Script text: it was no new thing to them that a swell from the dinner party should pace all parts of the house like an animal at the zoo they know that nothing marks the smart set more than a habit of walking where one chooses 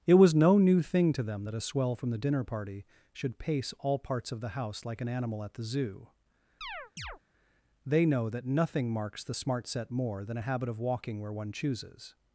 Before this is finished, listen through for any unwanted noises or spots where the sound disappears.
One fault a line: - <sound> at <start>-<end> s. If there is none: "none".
- chirp at 6.6-7.2 s